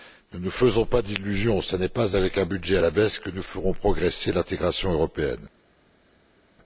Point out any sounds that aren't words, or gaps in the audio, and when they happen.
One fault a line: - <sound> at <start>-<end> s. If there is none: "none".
none